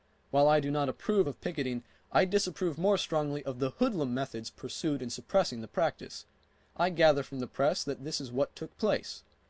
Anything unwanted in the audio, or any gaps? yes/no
no